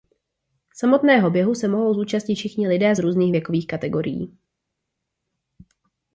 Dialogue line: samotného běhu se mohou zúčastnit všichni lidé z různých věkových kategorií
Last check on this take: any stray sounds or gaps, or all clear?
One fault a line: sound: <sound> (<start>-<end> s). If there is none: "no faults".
no faults